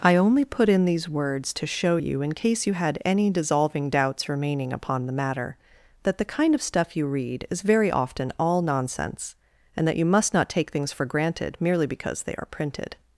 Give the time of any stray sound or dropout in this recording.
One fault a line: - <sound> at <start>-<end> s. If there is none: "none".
none